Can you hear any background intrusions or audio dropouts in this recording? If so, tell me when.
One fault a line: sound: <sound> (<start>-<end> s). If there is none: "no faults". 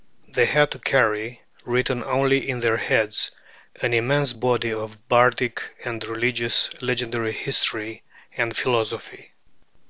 no faults